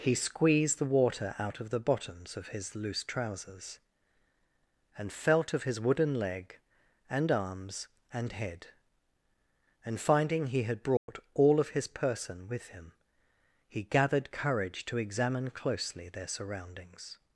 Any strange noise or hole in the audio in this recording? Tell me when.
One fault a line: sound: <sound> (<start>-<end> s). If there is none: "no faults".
sound: dropout (11.0-11.1 s)